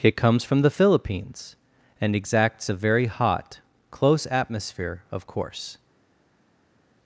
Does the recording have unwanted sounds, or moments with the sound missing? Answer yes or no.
no